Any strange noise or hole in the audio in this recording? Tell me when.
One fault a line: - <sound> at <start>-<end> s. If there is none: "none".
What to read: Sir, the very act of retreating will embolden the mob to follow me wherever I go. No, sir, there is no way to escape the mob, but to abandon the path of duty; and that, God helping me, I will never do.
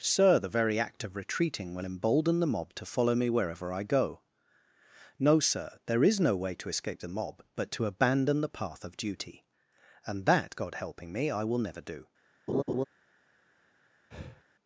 - laugh at 12.5-12.8 s
- breath at 14.1-14.4 s